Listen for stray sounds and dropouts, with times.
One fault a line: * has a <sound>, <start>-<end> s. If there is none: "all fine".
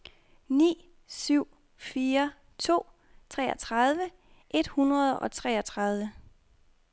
all fine